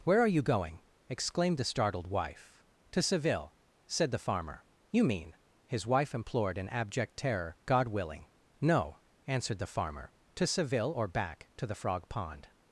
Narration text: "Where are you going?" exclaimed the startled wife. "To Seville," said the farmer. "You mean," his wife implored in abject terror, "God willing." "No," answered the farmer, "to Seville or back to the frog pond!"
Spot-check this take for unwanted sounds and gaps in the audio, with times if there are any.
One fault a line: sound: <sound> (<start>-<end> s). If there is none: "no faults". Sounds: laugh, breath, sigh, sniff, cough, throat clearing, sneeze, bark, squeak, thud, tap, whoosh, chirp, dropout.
no faults